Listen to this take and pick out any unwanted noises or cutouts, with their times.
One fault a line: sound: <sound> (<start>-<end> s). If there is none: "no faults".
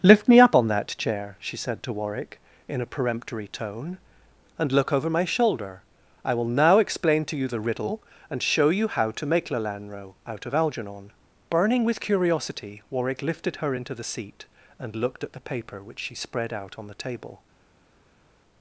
no faults